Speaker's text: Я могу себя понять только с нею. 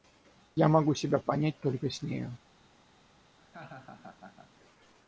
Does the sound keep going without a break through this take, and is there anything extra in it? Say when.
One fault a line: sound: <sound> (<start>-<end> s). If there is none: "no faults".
sound: laugh (3.4-4.5 s)